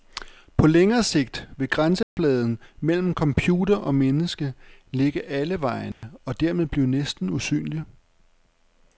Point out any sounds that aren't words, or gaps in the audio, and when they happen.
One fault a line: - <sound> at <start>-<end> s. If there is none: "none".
- dropout at 2.0-2.2 s
- dropout at 5.9-6.0 s